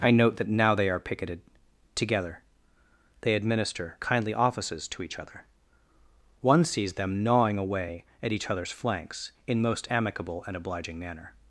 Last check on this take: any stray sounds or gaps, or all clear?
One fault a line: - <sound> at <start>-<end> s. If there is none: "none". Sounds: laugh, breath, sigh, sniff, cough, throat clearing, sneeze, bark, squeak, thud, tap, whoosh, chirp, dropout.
none